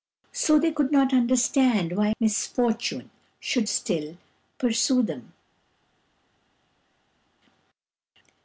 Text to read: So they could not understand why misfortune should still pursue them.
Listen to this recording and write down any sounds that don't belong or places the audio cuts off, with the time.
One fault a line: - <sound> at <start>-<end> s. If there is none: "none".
none